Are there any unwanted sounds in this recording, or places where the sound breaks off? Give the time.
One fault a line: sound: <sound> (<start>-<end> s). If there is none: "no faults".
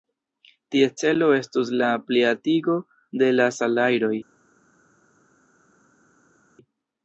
no faults